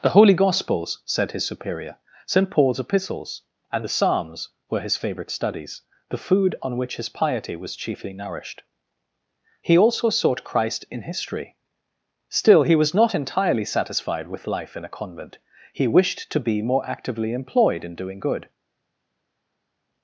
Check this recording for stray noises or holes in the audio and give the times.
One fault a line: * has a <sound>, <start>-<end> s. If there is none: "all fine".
all fine